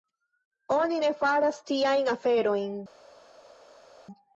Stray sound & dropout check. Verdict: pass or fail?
pass